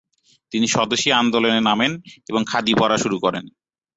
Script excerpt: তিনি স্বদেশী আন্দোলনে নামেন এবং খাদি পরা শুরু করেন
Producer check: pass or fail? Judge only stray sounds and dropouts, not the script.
pass